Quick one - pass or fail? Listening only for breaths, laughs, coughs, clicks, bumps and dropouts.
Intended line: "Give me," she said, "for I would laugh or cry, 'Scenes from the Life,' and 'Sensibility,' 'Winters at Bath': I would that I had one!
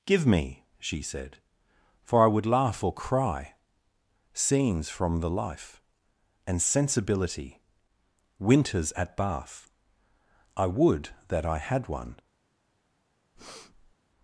fail